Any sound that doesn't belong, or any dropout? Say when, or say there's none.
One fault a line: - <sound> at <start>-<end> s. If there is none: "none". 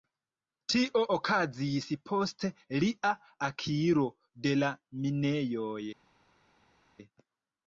none